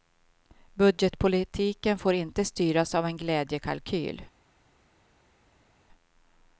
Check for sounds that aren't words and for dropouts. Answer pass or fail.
pass